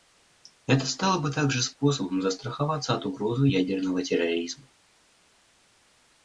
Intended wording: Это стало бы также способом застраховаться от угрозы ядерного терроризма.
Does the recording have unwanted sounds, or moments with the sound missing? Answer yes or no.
no